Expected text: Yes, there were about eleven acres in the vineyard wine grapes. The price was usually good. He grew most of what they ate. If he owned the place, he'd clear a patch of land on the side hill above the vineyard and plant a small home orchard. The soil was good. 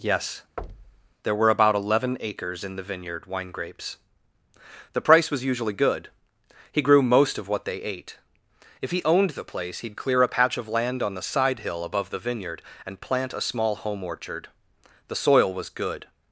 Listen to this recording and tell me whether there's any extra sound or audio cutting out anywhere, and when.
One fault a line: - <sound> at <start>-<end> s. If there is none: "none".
- thud at 0.6-1.1 s